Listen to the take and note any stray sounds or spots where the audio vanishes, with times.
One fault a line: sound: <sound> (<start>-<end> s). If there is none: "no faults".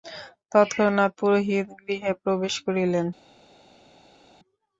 no faults